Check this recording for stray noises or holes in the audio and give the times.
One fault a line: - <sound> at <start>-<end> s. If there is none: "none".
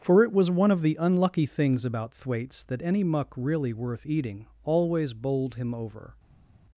none